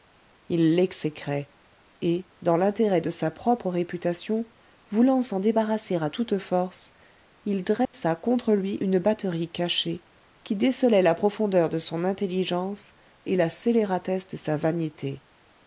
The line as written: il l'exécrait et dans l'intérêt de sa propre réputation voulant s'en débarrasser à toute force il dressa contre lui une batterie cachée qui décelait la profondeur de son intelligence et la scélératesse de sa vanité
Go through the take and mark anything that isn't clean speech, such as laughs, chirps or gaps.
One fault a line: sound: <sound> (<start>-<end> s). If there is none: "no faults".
sound: dropout (7.8-7.9 s)